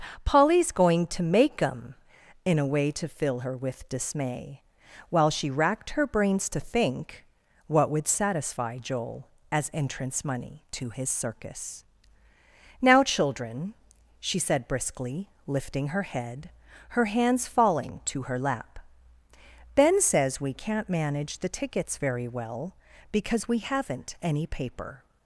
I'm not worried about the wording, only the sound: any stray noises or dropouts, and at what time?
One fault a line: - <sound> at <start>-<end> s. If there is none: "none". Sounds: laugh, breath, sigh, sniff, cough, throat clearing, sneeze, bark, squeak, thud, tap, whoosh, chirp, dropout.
none